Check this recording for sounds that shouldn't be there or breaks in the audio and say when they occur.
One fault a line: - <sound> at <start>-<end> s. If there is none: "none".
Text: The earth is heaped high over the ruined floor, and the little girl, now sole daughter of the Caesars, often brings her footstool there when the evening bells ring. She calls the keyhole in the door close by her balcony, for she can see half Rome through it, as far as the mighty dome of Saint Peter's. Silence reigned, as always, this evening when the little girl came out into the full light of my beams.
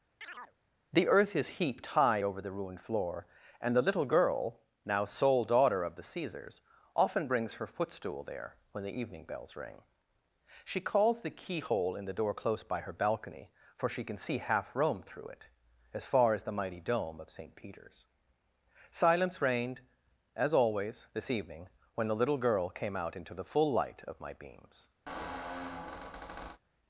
- chirp at 0.2-0.6 s
- squeak at 25.1-26.6 s